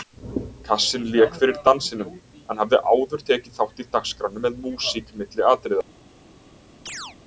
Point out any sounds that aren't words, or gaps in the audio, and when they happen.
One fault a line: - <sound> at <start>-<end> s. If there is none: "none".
- chirp at 6.9-7.2 s